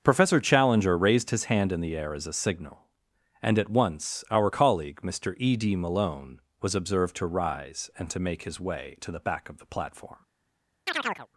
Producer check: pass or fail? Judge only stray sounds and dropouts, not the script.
fail